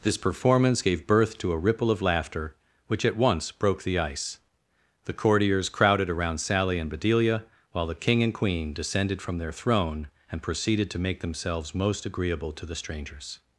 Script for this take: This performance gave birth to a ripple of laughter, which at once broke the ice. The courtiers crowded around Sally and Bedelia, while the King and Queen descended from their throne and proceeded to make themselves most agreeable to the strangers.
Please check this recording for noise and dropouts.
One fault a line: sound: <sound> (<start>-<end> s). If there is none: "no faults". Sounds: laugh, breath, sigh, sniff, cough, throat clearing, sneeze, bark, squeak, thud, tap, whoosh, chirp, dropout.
no faults